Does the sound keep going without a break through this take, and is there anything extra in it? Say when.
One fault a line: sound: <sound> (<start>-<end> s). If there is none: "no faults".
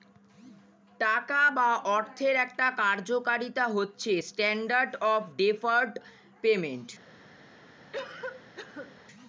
sound: cough (7.9-9.0 s)